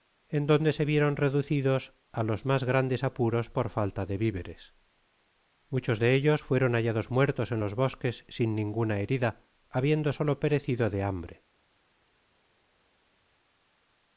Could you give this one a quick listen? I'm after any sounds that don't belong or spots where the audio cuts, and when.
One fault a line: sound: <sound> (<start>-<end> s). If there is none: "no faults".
no faults